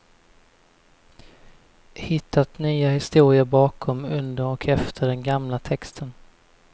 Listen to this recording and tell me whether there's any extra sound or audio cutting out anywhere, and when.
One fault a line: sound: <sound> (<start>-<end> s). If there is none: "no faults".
no faults